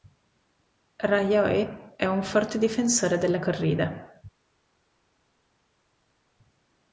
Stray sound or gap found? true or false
false